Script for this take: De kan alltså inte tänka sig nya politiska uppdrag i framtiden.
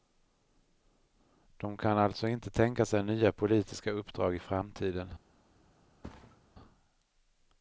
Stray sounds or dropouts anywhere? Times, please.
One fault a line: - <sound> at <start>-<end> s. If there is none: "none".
- thud at 6.0-6.4 s